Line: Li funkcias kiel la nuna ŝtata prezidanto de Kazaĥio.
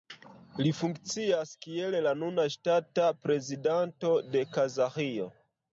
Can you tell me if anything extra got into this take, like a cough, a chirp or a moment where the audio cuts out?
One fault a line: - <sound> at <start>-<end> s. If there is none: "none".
none